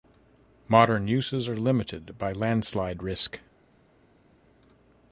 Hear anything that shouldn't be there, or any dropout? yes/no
no